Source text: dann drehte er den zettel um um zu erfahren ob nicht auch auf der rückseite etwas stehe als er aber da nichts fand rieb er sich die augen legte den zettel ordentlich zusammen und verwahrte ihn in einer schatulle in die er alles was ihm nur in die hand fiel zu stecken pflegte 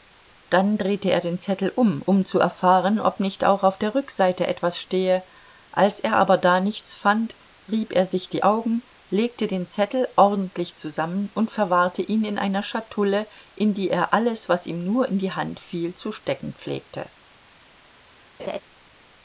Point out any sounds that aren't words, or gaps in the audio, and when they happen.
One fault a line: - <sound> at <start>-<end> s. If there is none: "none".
- laugh at 18.4-18.6 s